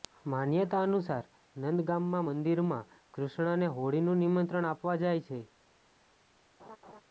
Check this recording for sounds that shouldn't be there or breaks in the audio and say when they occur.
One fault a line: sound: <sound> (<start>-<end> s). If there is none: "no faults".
sound: laugh (6.6-7.0 s)